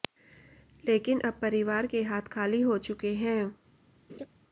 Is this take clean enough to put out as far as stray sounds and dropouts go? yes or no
no